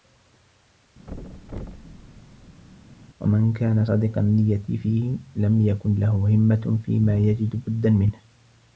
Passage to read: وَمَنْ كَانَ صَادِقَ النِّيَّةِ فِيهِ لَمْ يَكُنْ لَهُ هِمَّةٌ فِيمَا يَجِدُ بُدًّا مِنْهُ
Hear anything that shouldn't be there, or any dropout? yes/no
yes